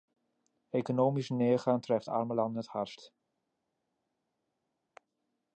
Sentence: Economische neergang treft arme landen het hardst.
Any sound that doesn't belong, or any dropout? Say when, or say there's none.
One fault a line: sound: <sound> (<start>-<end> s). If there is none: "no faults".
no faults